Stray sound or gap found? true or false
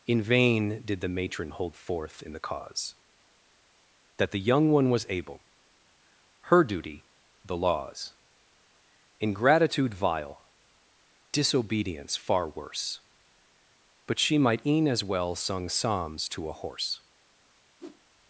true